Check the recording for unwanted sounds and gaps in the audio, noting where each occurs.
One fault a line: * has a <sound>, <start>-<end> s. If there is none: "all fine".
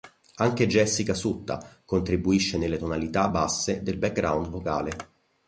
all fine